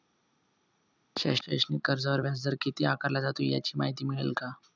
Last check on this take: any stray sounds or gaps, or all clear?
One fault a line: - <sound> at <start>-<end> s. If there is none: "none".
none